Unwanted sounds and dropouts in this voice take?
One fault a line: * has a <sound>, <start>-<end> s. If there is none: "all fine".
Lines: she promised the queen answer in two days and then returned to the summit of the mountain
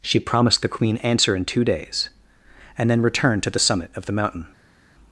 all fine